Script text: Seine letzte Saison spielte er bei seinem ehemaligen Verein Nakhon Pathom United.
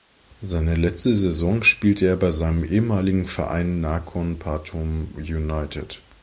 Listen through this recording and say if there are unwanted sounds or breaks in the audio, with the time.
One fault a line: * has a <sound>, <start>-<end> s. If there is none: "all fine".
all fine